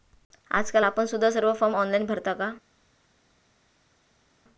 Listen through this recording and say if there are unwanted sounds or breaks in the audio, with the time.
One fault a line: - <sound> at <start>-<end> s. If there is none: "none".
none